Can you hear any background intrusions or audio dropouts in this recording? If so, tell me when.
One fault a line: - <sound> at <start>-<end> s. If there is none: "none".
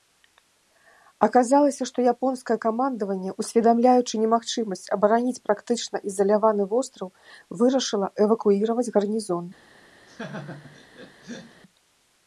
- laugh at 10.1-11.6 s